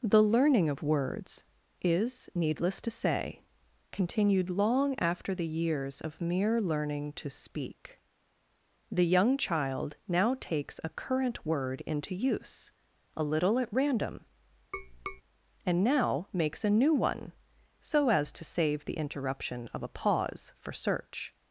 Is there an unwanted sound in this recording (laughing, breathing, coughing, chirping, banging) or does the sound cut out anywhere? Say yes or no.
yes